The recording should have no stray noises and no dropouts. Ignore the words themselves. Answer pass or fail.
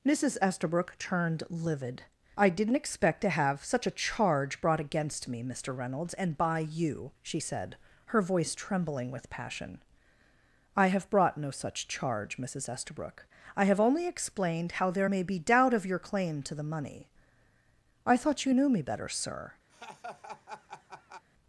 fail